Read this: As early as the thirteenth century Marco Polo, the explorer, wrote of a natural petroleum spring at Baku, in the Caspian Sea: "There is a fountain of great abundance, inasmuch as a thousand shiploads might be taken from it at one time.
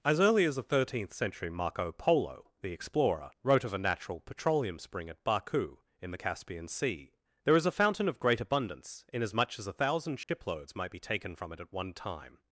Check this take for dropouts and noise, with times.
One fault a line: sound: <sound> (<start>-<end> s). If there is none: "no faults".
sound: dropout (10.2-10.3 s)